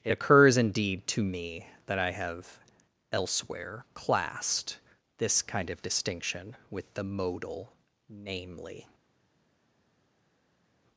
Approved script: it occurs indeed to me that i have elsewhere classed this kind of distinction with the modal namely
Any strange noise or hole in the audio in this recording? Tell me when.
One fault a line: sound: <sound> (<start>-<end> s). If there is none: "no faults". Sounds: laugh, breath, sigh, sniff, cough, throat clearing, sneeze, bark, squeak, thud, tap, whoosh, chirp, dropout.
no faults